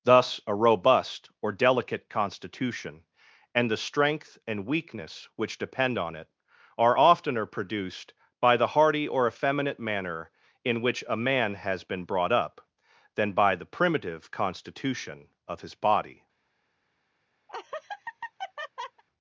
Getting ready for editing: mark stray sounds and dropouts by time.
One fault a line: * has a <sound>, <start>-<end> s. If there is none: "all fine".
* has a laugh, 17.5-19.0 s